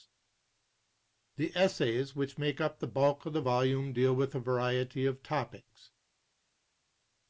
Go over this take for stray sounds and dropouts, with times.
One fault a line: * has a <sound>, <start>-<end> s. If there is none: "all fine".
all fine